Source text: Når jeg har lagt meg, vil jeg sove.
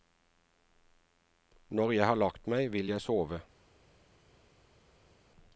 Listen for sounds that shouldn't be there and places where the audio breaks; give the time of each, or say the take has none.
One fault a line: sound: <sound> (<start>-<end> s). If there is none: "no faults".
no faults